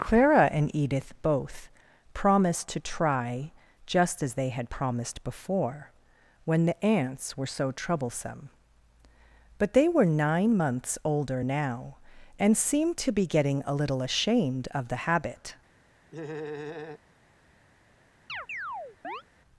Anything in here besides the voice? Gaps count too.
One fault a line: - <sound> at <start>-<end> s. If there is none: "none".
- laugh at 16.1-17.0 s
- chirp at 18.3-19.2 s